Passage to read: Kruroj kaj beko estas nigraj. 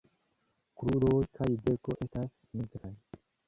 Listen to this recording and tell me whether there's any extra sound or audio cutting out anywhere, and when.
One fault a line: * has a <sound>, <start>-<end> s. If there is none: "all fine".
* has a dropout, 2.8-2.8 s